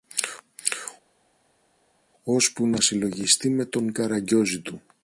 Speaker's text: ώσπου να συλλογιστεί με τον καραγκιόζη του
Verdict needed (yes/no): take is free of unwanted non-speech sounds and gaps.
yes